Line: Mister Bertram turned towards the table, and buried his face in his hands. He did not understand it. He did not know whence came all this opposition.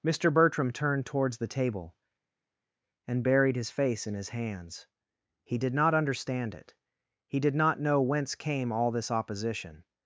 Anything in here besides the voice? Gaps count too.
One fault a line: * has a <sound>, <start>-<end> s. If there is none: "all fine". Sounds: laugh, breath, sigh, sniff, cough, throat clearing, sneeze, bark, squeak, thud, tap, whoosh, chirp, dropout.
all fine